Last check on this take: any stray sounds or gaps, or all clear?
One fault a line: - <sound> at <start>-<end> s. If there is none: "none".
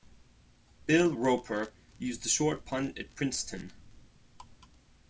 none